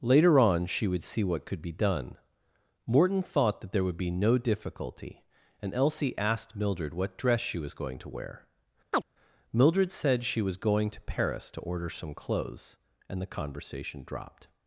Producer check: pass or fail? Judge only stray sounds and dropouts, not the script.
fail